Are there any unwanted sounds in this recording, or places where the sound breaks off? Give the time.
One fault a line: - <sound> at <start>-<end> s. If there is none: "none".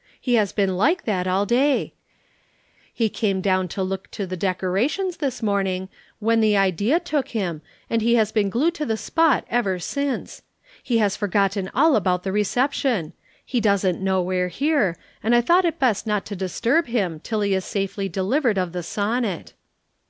none